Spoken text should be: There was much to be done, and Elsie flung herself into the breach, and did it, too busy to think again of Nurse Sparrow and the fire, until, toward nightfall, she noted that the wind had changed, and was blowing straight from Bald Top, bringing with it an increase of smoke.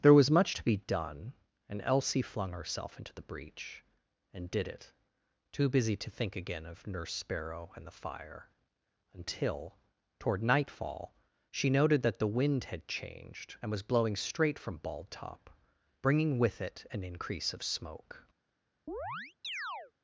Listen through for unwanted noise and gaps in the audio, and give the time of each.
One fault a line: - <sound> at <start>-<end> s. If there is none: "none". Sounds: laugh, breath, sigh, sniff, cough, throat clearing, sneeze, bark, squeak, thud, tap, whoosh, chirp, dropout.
- chirp at 18.9-19.9 s